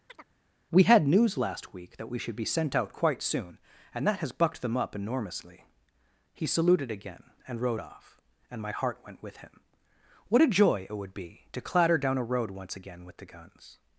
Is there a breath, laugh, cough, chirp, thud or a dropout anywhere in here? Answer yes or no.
yes